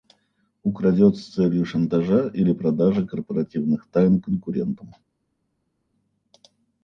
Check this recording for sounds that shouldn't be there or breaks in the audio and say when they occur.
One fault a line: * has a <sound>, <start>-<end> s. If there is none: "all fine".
all fine